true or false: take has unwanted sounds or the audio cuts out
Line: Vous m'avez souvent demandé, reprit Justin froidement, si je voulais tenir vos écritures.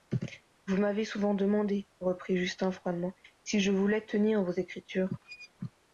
true